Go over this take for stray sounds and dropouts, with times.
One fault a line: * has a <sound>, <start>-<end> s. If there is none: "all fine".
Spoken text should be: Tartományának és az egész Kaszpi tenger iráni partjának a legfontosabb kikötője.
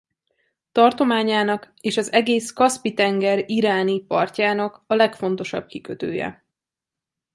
all fine